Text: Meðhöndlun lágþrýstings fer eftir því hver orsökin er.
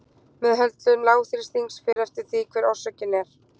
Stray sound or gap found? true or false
true